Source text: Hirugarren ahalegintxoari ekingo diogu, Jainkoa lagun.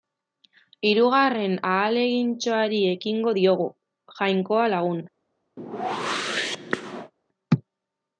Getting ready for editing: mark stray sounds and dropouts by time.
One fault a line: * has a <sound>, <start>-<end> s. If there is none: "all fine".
* has a whoosh, 5.6-7.1 s